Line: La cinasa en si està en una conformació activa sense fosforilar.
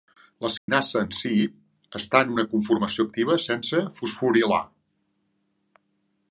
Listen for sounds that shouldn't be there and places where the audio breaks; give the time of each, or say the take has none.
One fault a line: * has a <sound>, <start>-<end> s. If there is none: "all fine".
* has a dropout, 0.6-0.7 s